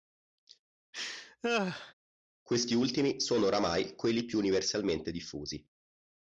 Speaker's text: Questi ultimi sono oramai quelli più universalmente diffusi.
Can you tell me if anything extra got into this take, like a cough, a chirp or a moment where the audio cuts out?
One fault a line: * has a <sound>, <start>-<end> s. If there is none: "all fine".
* has a laugh, 0.9-1.9 s